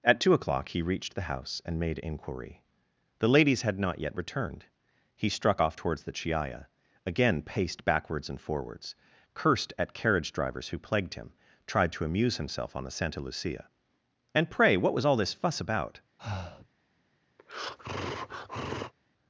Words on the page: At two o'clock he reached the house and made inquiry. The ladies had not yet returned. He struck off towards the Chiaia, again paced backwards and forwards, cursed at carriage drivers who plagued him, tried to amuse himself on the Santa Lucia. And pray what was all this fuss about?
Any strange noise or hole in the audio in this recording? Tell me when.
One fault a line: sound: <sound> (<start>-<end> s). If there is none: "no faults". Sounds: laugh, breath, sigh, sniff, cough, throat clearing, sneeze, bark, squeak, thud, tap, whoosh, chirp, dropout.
sound: breath (16.2-16.7 s)
sound: breath (17.4-18.9 s)